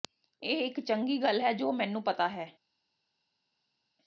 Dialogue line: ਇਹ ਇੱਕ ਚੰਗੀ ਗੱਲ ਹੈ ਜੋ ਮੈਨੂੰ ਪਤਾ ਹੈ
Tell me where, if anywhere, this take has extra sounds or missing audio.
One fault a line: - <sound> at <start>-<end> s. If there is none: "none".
none